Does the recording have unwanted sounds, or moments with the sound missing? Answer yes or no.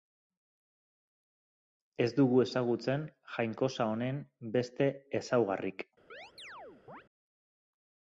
yes